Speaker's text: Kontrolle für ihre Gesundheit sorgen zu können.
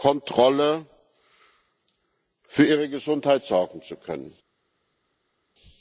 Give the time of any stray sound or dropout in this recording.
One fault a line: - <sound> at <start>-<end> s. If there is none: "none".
none